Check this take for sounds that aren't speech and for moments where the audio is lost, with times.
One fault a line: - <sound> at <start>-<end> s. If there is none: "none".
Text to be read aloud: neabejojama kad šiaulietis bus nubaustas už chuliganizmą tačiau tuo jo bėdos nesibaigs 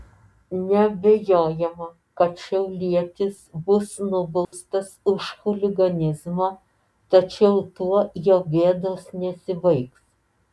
- dropout at 4.4-4.5 s